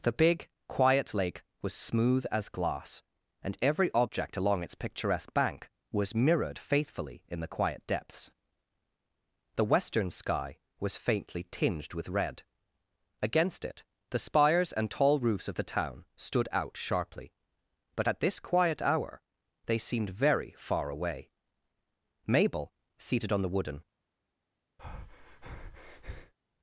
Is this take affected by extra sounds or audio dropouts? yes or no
yes